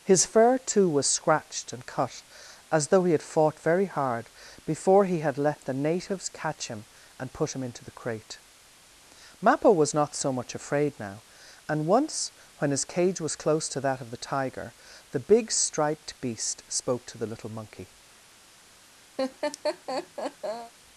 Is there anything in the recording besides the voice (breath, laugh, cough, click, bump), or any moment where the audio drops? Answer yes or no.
yes